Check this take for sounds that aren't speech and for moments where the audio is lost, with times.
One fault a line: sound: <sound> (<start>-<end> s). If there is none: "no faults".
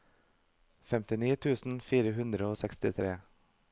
no faults